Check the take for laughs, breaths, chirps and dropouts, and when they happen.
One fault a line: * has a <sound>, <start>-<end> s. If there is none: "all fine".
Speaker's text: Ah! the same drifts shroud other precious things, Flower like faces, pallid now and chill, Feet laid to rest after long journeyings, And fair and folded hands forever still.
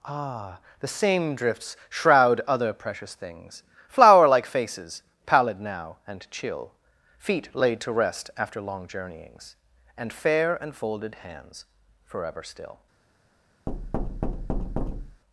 * has a thud, 13.7-15.2 s